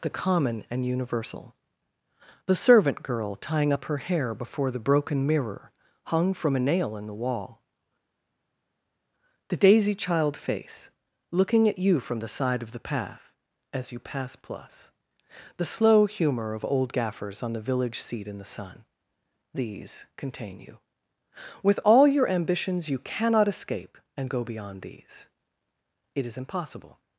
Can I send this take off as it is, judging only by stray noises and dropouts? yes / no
yes